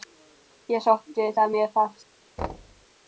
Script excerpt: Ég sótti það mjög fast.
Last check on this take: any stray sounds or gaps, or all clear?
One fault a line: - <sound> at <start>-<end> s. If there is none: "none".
- thud at 2.4-2.9 s